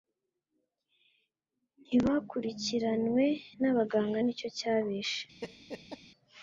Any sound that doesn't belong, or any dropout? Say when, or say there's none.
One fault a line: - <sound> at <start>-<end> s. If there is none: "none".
- laugh at 5.4-6.0 s